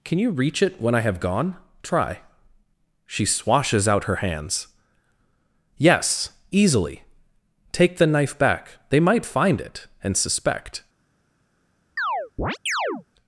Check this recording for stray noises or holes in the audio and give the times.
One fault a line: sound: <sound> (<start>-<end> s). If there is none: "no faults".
sound: chirp (12.0-13.0 s)